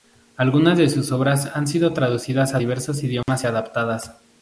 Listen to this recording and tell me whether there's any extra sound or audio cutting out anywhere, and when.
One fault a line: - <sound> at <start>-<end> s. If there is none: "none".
- dropout at 3.2-3.3 s